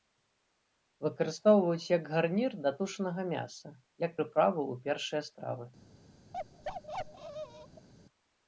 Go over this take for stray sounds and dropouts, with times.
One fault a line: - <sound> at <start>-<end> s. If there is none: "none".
- bark at 6.3-7.9 s